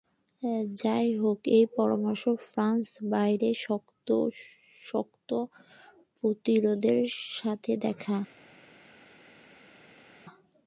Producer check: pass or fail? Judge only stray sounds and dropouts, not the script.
pass